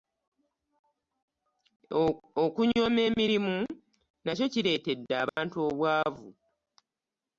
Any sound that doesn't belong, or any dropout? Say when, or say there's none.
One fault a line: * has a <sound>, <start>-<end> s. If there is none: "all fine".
* has a dropout, 5.3-5.4 s